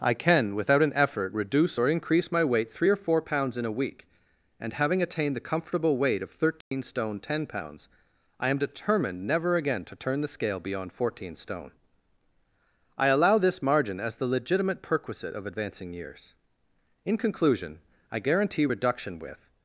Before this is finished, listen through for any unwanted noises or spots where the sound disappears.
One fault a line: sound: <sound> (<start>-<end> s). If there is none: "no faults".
sound: dropout (6.6-6.7 s)